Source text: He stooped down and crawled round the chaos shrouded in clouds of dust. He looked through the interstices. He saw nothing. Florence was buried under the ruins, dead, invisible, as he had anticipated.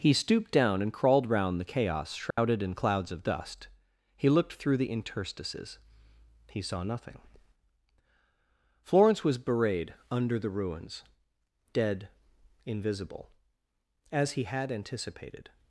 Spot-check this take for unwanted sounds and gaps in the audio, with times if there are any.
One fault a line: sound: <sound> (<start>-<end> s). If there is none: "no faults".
sound: dropout (2.3-2.4 s)